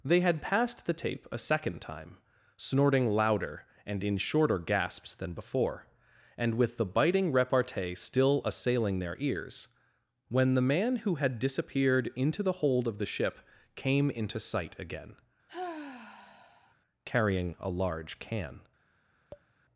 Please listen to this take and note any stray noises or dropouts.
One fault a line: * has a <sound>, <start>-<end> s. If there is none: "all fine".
* has a sigh, 15.5-16.7 s
* has a tap, 19.3-19.5 s